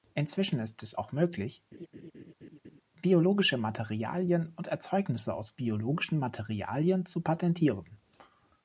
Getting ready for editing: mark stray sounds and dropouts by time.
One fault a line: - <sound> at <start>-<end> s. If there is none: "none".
- laugh at 1.7-2.8 s